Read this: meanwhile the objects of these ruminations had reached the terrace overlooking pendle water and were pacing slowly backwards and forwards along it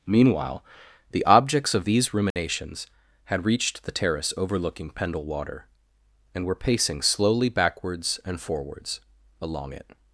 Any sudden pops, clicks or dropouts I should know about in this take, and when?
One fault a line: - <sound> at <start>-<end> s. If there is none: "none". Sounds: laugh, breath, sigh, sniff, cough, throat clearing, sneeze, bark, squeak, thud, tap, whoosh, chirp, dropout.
- dropout at 2.3-2.4 s